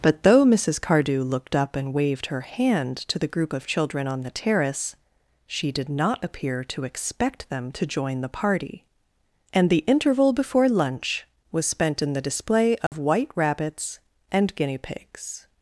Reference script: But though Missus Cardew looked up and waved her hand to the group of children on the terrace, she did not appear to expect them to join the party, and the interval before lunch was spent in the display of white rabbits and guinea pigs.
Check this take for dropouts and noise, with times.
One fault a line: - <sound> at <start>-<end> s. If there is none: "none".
- dropout at 12.9-12.9 s